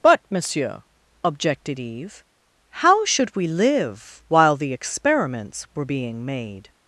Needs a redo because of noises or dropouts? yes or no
no